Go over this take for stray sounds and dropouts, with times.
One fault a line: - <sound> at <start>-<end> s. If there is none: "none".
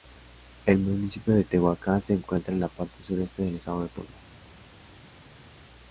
none